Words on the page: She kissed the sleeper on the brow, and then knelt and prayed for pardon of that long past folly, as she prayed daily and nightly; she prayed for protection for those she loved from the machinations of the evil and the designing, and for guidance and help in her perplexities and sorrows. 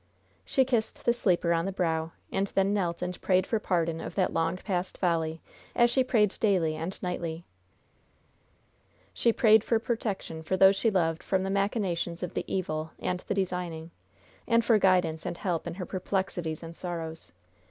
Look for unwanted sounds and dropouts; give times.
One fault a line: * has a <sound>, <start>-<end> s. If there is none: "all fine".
all fine